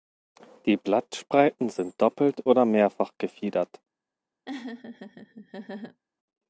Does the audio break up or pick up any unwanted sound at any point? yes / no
yes